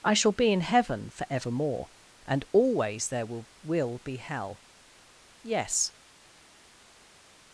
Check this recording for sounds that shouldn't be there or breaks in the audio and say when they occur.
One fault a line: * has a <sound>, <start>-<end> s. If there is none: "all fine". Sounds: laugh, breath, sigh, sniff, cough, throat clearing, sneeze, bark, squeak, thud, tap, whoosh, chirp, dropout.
all fine